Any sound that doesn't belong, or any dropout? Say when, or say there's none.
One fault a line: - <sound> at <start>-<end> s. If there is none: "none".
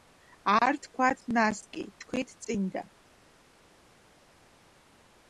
none